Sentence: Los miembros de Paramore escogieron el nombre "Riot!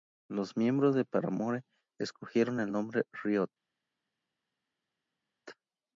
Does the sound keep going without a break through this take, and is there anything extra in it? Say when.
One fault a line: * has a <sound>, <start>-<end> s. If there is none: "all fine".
all fine